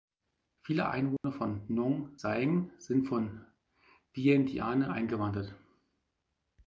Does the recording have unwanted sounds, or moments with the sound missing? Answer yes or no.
yes